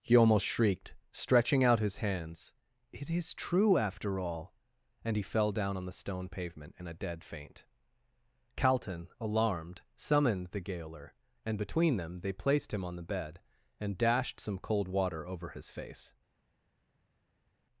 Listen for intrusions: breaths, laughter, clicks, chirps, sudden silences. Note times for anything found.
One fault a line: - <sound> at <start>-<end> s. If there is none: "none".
none